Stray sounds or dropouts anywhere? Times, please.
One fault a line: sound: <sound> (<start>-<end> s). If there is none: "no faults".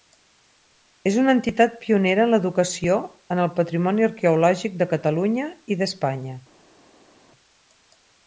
no faults